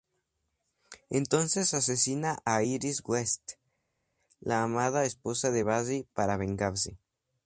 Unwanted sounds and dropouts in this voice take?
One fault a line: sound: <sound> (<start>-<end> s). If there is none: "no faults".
no faults